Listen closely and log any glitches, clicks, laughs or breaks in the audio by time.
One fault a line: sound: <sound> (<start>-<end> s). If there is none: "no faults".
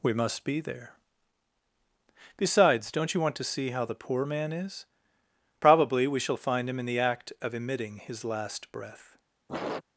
sound: sniff (9.5-9.8 s)